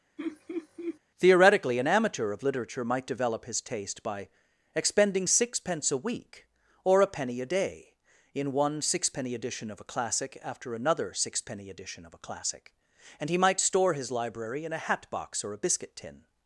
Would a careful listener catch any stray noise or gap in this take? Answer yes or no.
yes